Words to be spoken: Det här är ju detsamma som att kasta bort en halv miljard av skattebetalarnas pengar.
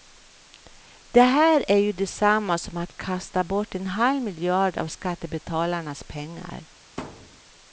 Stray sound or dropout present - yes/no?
yes